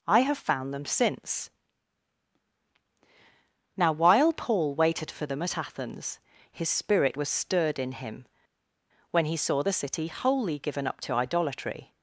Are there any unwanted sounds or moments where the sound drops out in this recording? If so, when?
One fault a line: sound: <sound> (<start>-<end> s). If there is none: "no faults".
no faults